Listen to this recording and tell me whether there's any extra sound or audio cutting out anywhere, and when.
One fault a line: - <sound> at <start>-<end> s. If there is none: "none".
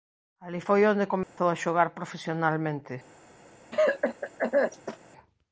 - dropout at 1.2-1.4 s
- cough at 3.7-5.0 s